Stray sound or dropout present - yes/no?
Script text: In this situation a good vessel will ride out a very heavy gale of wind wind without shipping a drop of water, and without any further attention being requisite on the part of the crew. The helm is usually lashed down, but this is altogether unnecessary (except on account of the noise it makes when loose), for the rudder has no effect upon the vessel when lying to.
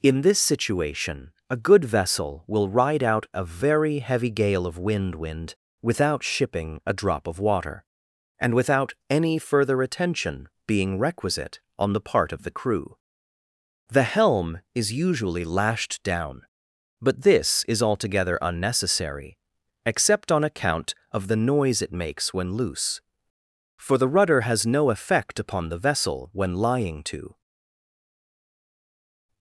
no